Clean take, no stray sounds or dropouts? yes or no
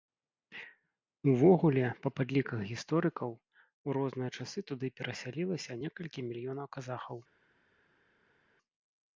yes